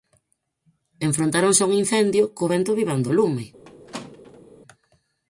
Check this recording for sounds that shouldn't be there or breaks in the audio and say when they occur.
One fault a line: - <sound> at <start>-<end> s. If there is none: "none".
- squeak at 3.6-4.5 s